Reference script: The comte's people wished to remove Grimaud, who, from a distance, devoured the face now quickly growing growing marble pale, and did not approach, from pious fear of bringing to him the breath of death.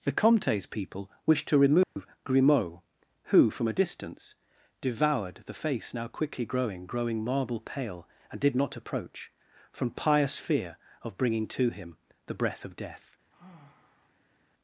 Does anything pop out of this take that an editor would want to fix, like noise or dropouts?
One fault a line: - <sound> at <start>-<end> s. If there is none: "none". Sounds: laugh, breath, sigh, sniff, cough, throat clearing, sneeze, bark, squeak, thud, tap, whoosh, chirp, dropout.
- dropout at 1.8-2.0 s
- sigh at 13.3-14.5 s